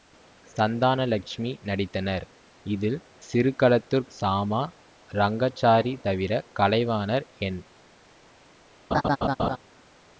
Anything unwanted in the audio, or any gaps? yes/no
yes